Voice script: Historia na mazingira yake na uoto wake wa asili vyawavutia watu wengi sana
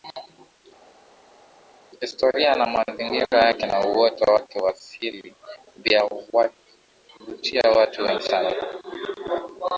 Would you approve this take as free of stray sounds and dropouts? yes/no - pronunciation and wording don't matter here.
yes